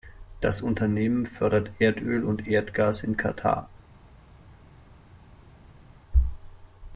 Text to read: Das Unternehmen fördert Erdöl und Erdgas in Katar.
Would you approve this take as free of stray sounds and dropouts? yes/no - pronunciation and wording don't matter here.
yes